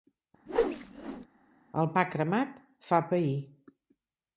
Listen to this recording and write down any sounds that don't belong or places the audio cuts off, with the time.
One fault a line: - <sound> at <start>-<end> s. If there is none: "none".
- whoosh at 0.5-1.3 s